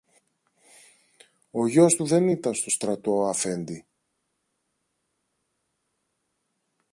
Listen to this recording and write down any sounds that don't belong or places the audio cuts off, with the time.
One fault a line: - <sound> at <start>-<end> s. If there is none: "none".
none